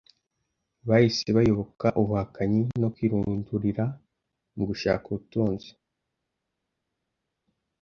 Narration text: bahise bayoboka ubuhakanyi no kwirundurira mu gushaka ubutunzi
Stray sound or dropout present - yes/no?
no